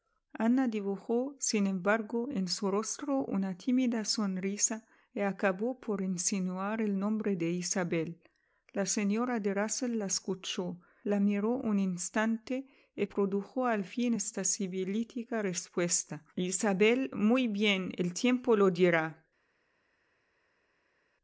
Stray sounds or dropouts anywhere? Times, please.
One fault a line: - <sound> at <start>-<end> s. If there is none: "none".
none